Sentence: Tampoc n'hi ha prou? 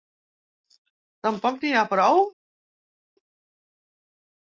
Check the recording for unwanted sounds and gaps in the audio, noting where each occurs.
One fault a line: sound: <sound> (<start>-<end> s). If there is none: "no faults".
no faults